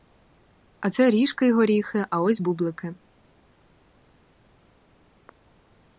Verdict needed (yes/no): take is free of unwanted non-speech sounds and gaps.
yes